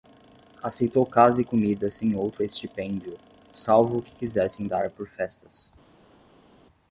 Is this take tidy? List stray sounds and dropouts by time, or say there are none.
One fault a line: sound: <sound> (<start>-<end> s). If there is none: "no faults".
no faults